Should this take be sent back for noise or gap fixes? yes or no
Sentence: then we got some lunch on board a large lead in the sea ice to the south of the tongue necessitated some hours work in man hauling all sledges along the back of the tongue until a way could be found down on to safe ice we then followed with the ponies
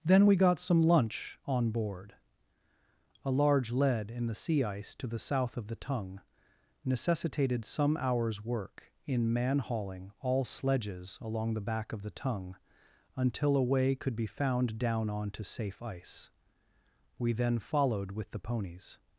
no